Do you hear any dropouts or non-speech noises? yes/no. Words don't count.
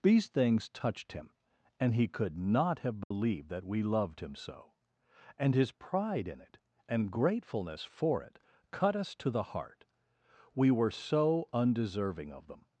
yes